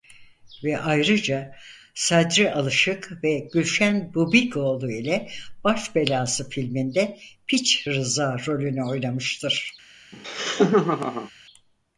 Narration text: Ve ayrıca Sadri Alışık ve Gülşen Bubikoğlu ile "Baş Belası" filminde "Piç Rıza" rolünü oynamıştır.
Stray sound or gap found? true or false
true